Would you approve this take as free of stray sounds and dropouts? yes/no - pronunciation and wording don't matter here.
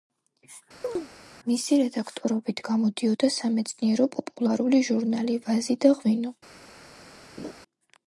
no